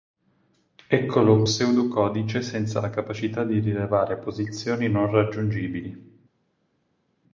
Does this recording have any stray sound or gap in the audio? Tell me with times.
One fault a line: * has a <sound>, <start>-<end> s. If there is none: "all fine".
all fine